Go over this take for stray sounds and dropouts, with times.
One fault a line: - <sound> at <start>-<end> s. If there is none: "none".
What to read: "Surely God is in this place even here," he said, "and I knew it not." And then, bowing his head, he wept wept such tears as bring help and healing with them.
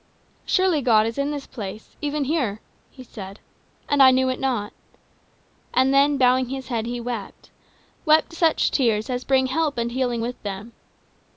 none